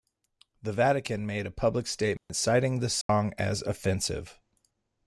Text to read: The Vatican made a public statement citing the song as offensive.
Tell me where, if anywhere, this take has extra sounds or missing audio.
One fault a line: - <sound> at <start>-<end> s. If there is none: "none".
- dropout at 2.2-2.3 s
- dropout at 3.0-3.1 s